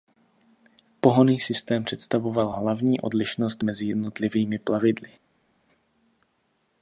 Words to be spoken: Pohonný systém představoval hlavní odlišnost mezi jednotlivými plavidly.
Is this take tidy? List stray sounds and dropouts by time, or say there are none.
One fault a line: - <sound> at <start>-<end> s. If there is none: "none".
none